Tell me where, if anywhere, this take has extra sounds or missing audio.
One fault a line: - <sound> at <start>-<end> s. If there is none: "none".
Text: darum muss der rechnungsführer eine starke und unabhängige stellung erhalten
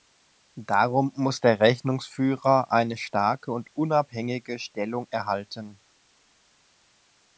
none